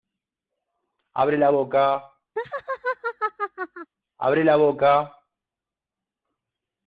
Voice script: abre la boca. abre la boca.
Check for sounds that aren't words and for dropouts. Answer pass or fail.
fail